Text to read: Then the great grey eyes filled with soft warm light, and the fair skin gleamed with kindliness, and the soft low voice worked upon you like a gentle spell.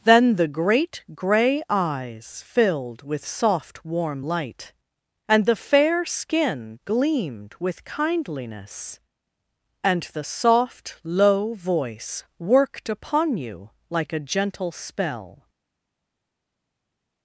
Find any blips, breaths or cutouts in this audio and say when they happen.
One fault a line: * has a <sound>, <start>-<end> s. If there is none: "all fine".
all fine